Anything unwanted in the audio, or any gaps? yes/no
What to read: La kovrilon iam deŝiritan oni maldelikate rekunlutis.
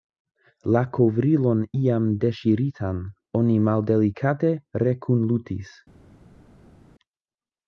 no